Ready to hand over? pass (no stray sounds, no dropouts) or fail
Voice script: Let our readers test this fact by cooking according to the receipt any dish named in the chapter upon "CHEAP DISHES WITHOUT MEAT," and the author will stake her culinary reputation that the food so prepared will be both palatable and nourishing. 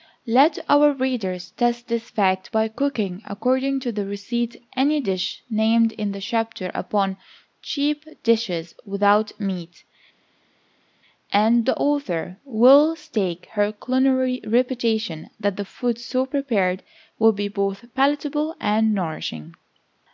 pass